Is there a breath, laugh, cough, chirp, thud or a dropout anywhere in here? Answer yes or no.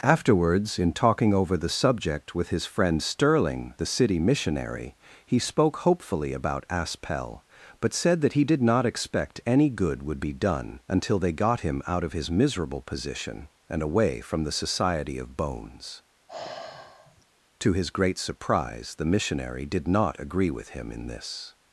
yes